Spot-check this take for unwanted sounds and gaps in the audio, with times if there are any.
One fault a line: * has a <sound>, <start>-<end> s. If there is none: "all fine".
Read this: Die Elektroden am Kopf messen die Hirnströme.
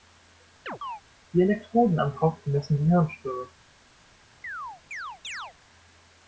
* has a chirp, 0.7-1.0 s
* has a chirp, 4.4-5.5 s